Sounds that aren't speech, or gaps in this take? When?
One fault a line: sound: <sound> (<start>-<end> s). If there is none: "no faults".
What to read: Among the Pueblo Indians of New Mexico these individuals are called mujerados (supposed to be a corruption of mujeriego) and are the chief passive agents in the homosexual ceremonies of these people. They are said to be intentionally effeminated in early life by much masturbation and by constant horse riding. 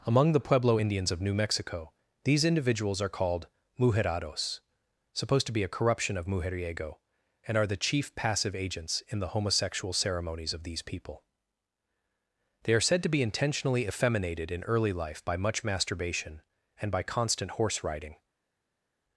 no faults